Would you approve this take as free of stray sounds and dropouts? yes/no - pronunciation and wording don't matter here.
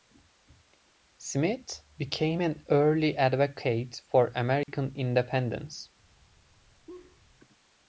no